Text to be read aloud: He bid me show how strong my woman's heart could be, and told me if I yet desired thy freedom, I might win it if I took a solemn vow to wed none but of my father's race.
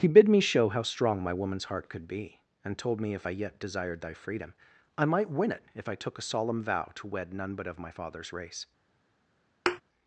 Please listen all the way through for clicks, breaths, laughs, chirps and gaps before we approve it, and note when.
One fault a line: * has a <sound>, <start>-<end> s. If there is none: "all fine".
* has a thud, 9.7-9.8 s